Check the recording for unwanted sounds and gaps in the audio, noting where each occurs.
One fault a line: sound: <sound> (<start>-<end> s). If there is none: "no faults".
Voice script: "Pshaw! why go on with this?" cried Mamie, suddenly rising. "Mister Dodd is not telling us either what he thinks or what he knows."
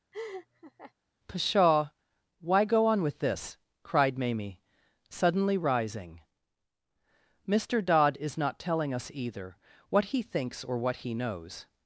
sound: laugh (0.1-0.9 s)